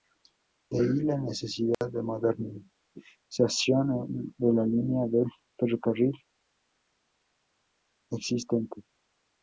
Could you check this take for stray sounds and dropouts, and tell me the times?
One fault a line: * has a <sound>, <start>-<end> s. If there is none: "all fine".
* has a dropout, 1.7-1.8 s